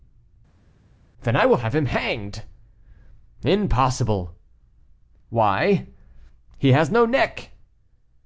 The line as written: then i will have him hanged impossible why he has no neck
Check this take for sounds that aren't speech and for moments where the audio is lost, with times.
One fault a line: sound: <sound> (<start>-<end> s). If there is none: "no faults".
no faults